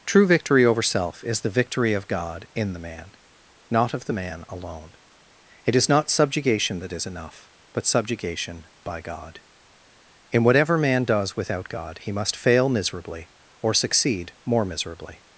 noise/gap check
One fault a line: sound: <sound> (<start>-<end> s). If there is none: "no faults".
no faults